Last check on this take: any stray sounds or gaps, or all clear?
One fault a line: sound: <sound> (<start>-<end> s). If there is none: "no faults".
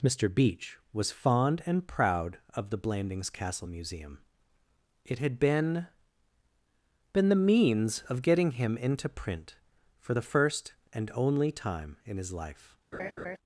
sound: laugh (12.9-13.4 s)